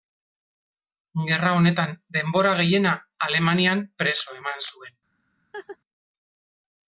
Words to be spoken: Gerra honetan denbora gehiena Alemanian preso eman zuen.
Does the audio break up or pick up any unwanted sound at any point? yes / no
yes